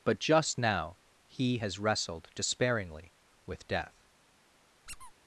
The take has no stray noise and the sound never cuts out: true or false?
false